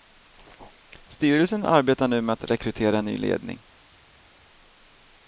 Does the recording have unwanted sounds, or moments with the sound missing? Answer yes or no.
no